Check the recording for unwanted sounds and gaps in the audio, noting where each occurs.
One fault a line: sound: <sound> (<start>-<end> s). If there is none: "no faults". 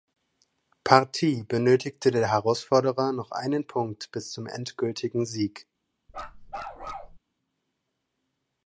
sound: bark (6.1-7.2 s)